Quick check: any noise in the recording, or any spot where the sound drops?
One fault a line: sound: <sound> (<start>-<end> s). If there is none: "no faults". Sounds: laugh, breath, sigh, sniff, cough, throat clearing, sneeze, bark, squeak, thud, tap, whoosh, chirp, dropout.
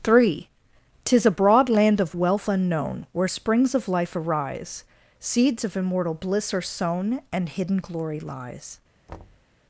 sound: thud (9.1-9.5 s)